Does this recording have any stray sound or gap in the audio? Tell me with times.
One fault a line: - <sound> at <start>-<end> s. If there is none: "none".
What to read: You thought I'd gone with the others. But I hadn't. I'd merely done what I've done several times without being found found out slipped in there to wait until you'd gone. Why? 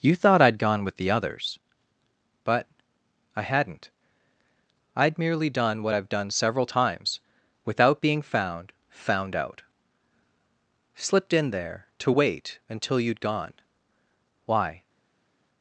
none